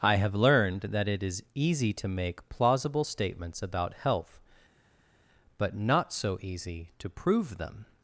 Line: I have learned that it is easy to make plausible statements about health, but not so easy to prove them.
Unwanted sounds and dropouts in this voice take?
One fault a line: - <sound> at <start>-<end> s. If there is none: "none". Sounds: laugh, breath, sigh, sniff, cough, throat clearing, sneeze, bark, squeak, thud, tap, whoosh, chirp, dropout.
none